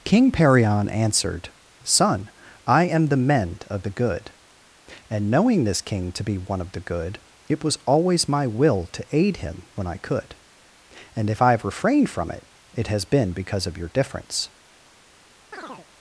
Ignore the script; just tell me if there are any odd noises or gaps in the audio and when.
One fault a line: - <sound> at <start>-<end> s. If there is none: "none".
- chirp at 15.5-15.9 s